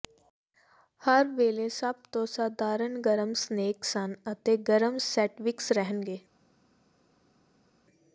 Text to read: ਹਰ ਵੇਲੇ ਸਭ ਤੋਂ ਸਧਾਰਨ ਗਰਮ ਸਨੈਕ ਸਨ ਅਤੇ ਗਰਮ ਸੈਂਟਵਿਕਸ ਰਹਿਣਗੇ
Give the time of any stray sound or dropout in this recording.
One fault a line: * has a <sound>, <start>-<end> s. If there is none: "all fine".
all fine